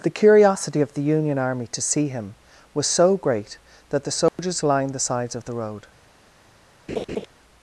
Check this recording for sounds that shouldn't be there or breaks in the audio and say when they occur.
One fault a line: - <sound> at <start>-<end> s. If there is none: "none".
- dropout at 4.3-4.4 s
- laugh at 6.9-7.3 s